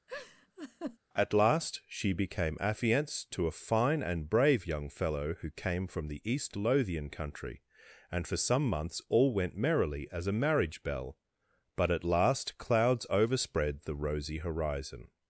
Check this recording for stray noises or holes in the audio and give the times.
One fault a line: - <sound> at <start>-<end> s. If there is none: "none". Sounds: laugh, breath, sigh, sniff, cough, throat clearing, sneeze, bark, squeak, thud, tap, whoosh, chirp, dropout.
- laugh at 0.1-1.0 s